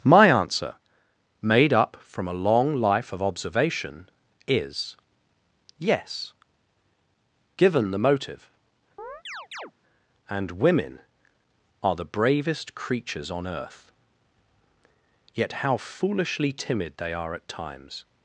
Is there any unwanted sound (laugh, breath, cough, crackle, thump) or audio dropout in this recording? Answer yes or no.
yes